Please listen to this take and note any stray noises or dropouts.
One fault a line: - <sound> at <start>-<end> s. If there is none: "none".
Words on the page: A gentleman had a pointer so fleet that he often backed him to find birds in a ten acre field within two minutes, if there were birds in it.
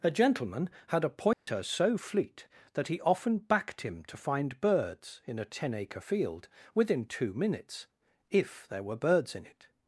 - dropout at 1.3-1.5 s